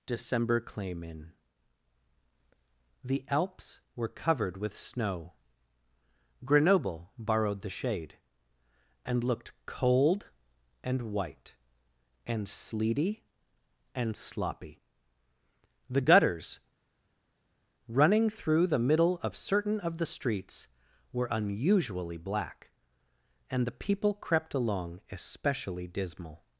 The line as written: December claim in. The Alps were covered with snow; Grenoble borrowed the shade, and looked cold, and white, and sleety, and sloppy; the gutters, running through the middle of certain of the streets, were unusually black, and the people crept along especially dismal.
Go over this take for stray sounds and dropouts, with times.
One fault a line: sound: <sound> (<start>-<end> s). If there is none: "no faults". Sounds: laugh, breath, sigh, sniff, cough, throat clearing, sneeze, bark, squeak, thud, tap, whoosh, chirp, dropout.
no faults